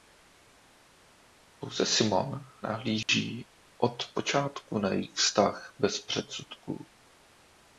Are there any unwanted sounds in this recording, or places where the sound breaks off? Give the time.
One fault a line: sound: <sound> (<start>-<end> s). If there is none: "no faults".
sound: dropout (3.0-3.1 s)